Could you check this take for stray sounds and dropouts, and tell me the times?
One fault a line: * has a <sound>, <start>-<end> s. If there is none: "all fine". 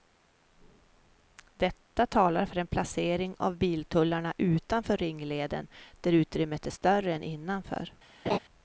* has a laugh, 8.3-8.4 s